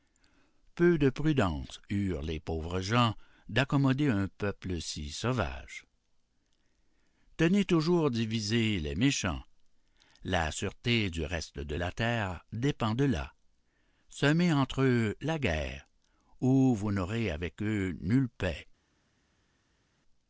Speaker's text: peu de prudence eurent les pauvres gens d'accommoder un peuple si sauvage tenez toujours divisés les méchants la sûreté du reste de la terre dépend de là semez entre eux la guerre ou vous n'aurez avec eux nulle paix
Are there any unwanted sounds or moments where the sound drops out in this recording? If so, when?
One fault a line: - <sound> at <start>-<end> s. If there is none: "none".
none